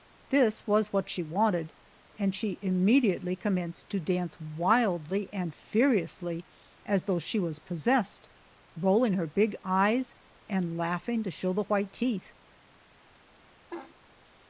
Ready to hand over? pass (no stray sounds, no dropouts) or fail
fail